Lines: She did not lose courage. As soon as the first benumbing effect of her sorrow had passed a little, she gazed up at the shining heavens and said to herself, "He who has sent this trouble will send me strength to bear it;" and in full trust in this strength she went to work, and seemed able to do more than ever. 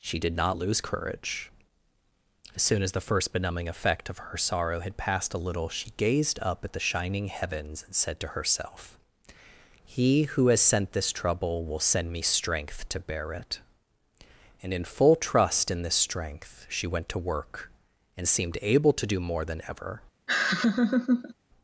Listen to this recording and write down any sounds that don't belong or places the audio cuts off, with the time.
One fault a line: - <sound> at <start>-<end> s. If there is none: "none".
- laugh at 20.3-21.3 s